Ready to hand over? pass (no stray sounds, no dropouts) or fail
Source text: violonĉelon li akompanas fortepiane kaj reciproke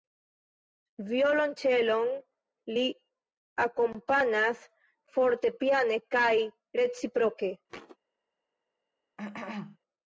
fail